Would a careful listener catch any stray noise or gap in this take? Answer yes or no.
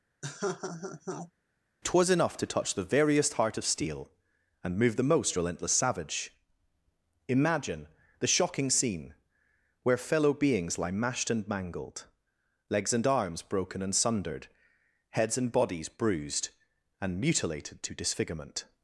yes